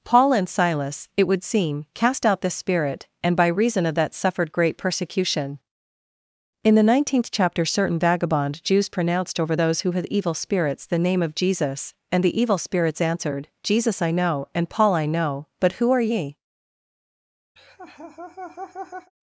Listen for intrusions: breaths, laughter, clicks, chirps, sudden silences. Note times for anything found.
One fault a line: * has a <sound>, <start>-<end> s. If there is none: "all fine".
* has a laugh, 17.6-19.1 s